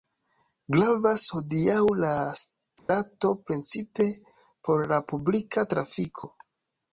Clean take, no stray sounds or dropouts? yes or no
no